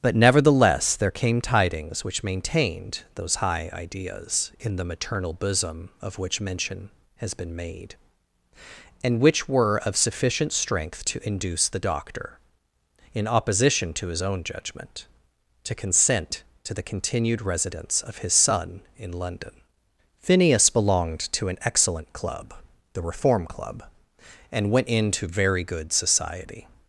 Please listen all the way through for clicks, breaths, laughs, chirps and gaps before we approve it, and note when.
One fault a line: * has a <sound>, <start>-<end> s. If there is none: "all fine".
all fine